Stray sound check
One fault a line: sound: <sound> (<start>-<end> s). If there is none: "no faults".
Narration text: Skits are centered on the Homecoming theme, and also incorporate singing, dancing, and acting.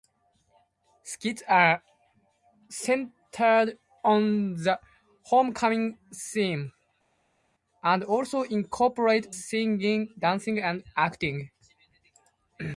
no faults